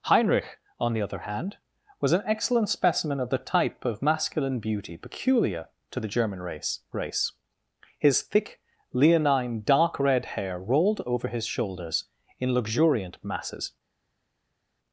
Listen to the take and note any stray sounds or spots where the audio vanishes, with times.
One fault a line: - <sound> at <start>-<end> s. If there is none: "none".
none